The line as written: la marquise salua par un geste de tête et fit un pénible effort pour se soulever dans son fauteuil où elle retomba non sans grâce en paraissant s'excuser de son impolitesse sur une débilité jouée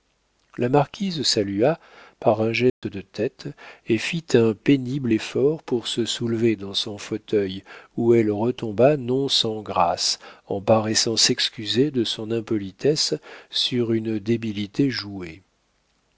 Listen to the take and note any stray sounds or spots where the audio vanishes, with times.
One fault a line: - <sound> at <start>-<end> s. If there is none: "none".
- dropout at 2.7-2.8 s